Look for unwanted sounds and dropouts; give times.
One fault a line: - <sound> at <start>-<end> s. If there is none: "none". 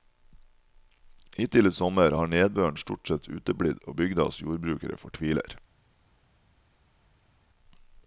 none